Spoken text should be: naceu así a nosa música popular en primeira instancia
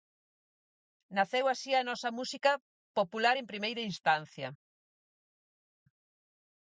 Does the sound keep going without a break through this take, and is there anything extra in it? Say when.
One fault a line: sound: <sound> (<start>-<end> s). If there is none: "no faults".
no faults